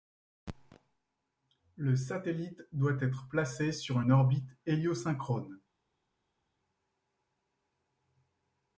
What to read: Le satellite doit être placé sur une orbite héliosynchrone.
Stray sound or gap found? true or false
false